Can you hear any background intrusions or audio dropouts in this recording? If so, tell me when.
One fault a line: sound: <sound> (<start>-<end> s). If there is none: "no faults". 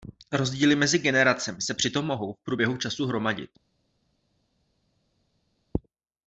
no faults